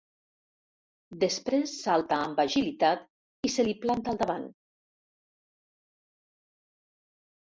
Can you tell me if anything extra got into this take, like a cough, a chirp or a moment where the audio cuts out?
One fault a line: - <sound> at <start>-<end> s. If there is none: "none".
none